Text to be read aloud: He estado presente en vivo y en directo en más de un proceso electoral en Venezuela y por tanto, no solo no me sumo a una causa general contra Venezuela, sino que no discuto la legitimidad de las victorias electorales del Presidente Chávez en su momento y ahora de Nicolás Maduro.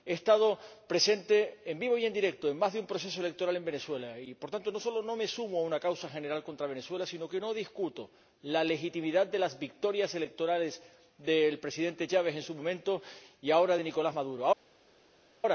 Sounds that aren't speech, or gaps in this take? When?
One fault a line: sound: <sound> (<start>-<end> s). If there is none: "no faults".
no faults